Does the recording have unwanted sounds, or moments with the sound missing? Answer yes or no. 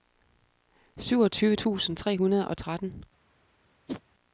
yes